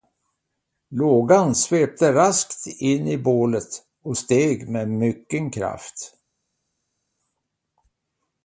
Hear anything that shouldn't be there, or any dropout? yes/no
no